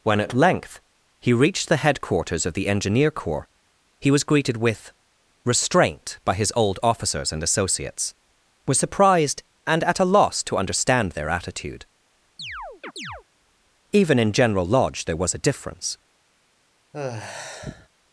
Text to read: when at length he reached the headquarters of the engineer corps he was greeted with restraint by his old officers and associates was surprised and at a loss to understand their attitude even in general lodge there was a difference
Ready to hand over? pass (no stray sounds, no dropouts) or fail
fail